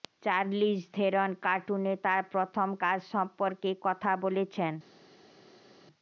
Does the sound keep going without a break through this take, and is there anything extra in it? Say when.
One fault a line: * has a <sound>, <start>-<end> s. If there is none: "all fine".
all fine